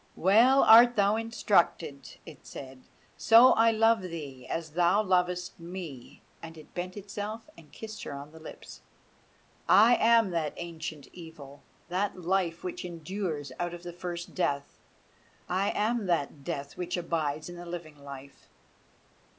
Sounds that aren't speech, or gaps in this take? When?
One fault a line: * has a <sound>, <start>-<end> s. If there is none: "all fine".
all fine